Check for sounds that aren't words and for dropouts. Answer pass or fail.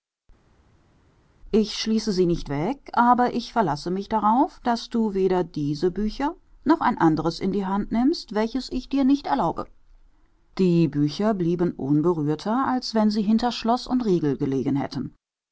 pass